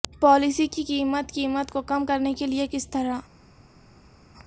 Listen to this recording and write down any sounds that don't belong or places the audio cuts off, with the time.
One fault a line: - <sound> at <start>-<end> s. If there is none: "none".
none